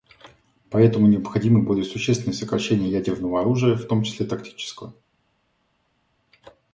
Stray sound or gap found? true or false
false